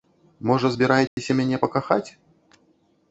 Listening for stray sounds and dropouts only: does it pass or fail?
fail